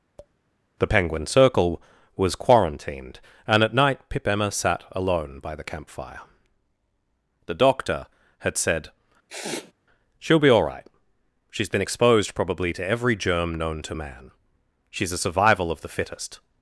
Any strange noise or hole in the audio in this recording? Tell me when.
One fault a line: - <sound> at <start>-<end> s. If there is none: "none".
- tap at 0.2-0.3 s
- sniff at 9.3-9.7 s